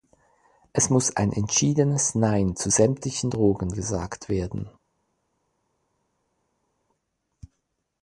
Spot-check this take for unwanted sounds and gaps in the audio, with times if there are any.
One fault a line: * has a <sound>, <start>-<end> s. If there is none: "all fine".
all fine